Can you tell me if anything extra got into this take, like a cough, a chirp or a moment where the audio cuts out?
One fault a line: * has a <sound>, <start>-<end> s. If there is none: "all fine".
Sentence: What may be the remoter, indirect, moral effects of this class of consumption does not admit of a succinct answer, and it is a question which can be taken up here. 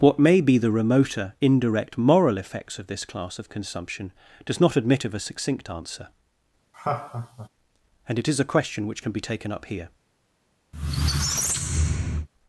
* has a laugh, 6.7-7.5 s
* has a squeak, 10.7-12.3 s